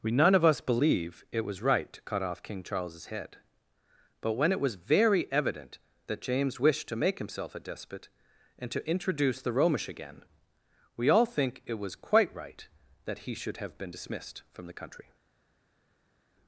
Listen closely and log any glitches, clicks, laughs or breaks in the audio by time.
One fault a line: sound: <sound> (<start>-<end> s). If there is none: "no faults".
no faults